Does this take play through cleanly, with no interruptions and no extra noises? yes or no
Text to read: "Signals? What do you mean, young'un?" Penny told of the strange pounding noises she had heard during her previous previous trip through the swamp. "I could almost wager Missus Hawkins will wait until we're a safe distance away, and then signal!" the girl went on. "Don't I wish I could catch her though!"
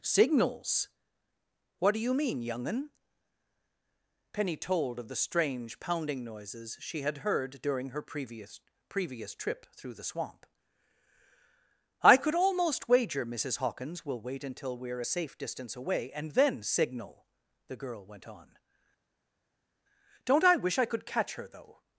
yes